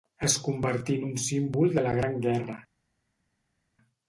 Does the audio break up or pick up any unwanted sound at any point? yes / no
no